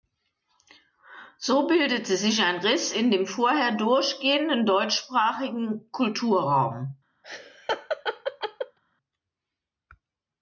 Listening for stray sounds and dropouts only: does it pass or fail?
fail